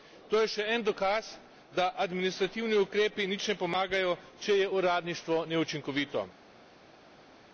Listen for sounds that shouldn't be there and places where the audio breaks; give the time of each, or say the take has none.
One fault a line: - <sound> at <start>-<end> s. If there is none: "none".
none